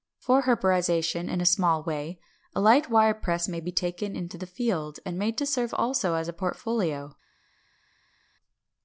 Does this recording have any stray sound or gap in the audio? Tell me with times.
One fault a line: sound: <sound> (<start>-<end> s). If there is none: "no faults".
no faults